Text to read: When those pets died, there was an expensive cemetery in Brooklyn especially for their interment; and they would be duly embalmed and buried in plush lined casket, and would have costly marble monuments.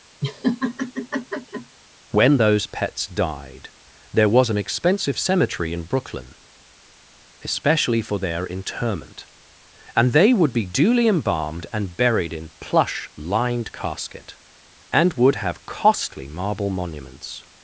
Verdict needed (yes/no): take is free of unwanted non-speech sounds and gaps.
no